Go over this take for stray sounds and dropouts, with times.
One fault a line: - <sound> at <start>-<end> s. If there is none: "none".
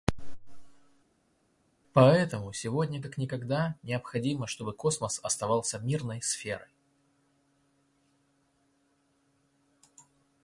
none